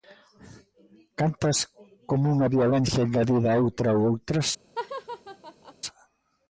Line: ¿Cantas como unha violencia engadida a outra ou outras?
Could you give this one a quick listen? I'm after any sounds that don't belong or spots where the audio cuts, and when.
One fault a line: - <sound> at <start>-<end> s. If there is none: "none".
- laugh at 4.8-5.7 s